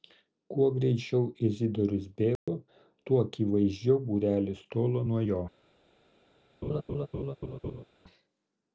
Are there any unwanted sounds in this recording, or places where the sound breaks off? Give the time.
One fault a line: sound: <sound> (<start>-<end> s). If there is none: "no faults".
sound: dropout (2.4-2.5 s)
sound: laugh (6.6-7.8 s)